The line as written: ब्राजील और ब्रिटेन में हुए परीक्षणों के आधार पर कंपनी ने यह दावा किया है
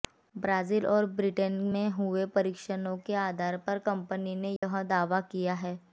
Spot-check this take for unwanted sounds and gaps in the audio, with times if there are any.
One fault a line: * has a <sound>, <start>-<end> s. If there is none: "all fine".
* has a dropout, 4.6-4.6 s